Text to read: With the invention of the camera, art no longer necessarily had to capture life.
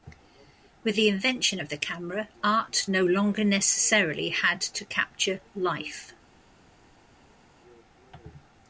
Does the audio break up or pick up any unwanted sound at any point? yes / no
no